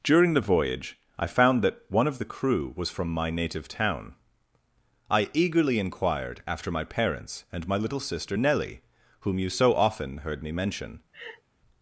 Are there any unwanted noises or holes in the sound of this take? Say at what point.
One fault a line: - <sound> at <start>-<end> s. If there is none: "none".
- laugh at 11.1-11.4 s